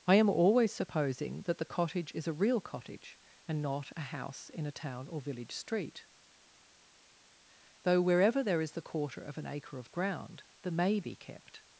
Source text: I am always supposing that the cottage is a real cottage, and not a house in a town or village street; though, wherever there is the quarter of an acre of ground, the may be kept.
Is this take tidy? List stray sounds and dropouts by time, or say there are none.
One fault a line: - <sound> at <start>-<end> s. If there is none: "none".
none